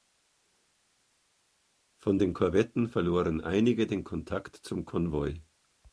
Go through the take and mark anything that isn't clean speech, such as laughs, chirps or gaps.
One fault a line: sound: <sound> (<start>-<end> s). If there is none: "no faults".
no faults